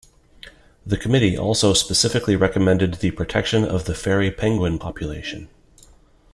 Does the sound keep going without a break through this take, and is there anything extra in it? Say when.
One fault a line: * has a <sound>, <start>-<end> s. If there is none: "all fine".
all fine